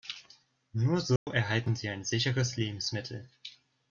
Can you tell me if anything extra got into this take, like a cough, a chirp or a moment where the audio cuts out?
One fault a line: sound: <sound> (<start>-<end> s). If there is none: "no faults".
sound: dropout (1.2-1.3 s)